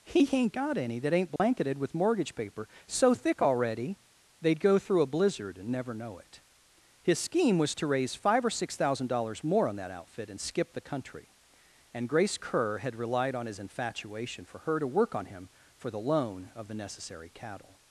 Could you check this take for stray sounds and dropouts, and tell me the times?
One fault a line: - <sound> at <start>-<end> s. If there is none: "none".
- dropout at 1.4-1.4 s